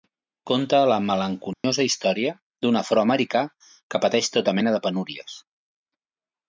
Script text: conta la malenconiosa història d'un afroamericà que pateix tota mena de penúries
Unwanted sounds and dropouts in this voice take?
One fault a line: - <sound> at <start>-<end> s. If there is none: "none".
- dropout at 1.5-1.6 s